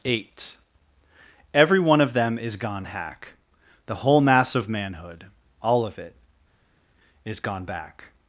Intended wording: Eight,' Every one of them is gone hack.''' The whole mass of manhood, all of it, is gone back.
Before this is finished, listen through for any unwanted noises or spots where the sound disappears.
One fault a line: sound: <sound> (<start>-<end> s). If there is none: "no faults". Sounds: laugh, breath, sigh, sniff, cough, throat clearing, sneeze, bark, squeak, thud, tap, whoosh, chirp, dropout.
no faults